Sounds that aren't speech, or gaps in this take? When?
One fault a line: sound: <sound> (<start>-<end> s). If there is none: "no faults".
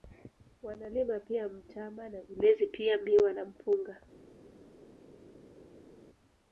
no faults